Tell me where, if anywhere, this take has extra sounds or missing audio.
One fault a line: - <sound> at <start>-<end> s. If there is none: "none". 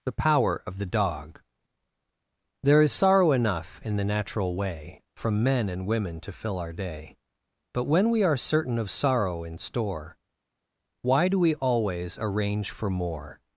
none